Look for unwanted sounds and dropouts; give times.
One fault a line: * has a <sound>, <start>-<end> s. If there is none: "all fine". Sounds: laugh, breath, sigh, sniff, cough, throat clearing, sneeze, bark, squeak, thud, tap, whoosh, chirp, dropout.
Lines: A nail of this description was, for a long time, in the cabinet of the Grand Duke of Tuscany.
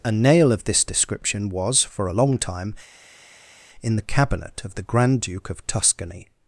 all fine